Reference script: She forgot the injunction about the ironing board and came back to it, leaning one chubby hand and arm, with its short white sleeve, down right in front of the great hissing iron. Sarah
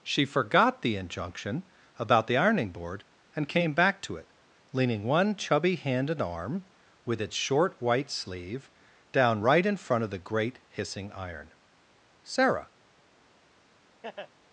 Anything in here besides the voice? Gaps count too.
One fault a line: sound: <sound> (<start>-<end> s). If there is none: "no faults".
sound: laugh (14.0-14.3 s)